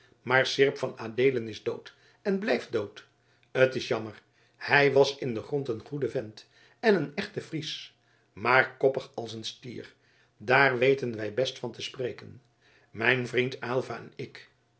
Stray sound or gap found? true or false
false